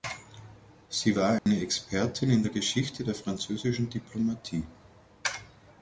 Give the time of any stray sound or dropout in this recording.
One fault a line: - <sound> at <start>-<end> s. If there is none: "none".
- dropout at 1.4-1.5 s